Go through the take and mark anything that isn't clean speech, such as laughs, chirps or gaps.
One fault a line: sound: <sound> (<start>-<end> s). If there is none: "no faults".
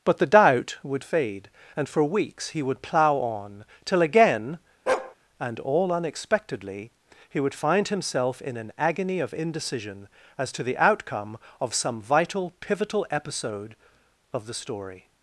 sound: bark (4.9-5.1 s)